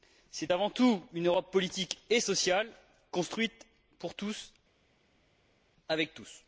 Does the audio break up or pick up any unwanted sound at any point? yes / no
no